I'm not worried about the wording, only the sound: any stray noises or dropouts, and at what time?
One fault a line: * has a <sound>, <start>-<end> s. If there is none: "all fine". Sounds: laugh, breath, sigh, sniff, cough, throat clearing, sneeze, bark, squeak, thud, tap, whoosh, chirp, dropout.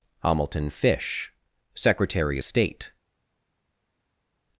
all fine